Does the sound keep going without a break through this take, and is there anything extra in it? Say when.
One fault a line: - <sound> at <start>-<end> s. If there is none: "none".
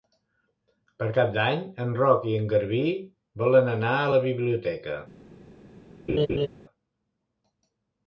- laugh at 6.1-6.5 s